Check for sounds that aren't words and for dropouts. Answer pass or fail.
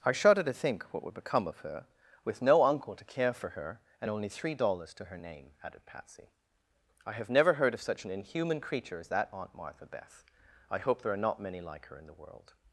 pass